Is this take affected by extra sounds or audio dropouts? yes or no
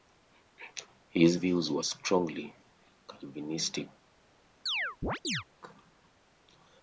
yes